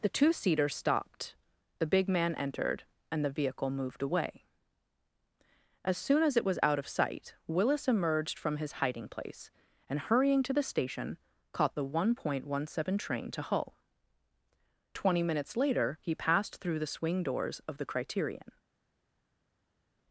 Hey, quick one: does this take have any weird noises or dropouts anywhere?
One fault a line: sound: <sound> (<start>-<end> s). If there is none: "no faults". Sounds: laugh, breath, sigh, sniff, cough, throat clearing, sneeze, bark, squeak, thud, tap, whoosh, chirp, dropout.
no faults